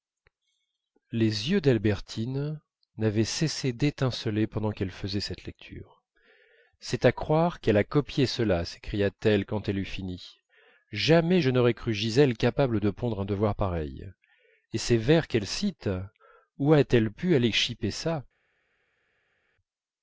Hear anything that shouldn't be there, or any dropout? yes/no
no